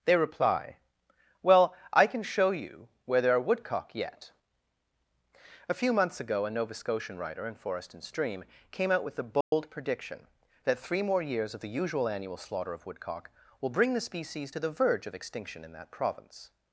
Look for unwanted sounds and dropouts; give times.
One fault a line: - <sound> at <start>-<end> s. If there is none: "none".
- dropout at 9.4-9.5 s